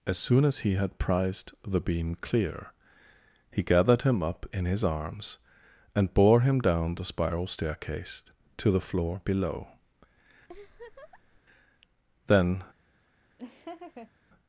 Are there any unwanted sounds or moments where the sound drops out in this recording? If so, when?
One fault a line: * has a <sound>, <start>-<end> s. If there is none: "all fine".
* has a laugh, 10.5-11.4 s
* has a laugh, 13.4-14.1 s